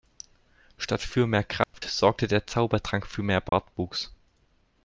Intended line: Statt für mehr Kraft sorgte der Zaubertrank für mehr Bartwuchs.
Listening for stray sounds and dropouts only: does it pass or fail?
fail